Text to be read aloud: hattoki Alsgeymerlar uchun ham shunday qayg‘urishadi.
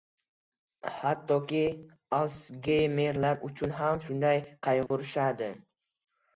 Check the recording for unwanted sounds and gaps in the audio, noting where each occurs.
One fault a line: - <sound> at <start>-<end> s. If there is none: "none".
- dropout at 4.9-4.9 s